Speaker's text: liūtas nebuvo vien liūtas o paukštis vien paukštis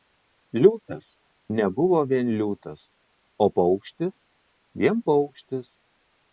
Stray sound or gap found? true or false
false